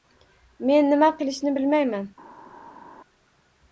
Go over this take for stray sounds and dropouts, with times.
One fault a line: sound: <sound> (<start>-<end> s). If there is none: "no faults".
no faults